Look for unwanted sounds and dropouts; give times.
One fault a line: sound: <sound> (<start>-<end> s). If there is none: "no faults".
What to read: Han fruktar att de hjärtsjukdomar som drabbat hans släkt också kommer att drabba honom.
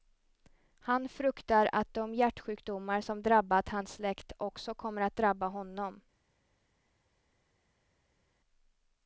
no faults